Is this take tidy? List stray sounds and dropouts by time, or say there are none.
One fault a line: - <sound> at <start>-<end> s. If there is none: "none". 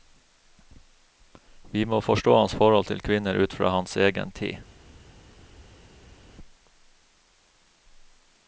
none